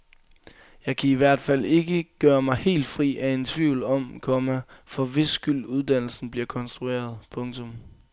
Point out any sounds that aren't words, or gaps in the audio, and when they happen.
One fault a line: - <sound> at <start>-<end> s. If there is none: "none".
none